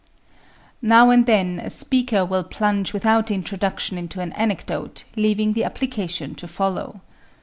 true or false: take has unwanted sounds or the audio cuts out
false